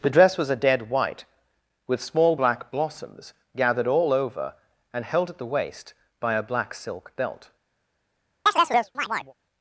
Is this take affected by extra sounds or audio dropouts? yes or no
yes